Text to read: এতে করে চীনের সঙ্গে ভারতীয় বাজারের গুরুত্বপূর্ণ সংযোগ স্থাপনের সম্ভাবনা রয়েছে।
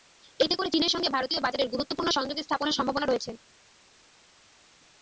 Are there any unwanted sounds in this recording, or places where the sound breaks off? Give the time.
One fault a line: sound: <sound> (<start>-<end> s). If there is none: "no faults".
no faults